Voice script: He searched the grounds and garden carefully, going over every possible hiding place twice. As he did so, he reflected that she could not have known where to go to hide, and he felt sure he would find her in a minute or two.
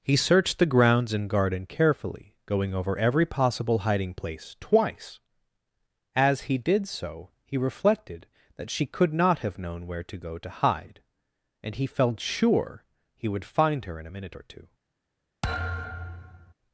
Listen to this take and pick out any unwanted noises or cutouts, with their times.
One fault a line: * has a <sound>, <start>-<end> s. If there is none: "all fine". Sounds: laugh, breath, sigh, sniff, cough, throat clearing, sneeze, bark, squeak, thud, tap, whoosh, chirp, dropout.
* has a thud, 15.4-16.5 s